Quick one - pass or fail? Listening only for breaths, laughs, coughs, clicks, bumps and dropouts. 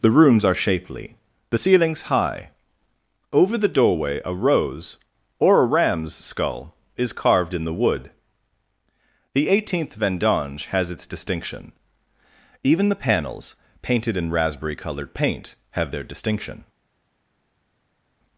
pass